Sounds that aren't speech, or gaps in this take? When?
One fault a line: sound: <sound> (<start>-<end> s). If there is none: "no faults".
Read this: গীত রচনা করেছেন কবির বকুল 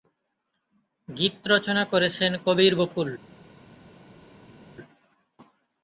no faults